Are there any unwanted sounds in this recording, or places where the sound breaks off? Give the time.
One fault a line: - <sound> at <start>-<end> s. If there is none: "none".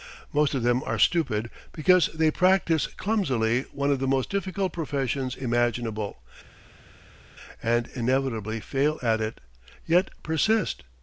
none